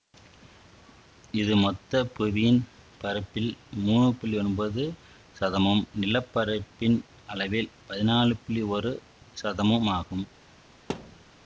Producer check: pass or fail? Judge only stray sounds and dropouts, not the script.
fail